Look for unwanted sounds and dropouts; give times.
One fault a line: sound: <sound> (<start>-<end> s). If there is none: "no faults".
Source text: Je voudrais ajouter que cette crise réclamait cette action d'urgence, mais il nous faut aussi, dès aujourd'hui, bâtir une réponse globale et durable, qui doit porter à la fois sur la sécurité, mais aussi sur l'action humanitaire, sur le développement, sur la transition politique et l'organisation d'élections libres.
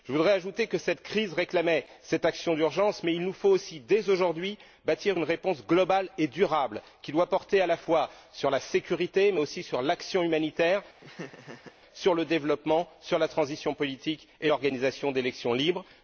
sound: laugh (11.0-11.8 s)